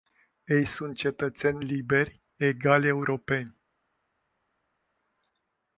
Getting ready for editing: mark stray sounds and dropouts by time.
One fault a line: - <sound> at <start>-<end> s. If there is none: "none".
none